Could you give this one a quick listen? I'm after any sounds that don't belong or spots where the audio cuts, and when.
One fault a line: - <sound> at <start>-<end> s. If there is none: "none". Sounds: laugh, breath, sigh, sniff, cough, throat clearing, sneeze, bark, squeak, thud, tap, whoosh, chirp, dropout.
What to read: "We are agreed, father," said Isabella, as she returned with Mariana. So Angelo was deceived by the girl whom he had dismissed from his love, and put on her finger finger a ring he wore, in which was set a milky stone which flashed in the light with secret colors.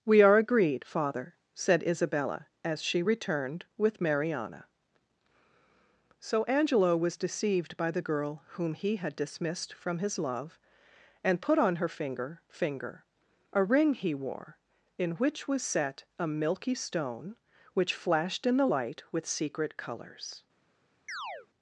- chirp at 21.1-21.5 s